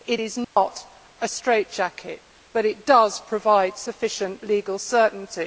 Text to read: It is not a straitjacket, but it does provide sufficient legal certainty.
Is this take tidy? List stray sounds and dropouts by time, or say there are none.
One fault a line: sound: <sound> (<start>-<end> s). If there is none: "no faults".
sound: dropout (0.4-0.6 s)